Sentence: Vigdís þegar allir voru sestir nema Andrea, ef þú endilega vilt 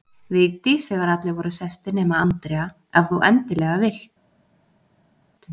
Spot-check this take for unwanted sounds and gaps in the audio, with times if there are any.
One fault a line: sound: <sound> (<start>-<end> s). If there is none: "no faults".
no faults